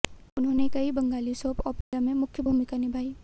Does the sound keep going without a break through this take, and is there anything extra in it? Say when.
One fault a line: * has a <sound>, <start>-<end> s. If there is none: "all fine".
* has a dropout, 1.8-1.9 s